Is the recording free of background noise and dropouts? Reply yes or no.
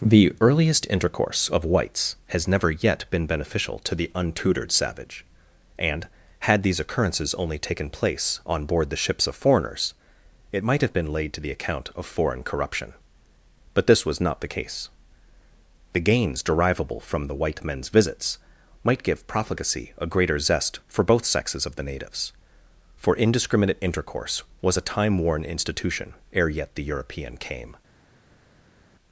yes